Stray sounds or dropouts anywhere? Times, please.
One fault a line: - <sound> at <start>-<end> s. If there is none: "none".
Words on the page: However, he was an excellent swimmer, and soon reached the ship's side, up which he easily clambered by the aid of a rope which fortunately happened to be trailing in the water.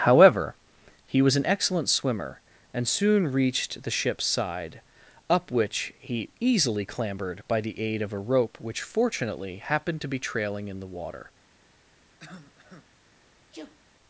- cough at 12.2-12.9 s
- sneeze at 13.5-13.8 s